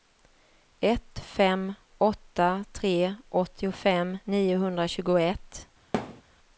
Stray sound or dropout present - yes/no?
yes